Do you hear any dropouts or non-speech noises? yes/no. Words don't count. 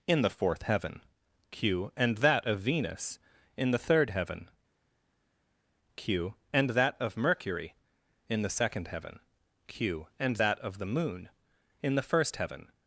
no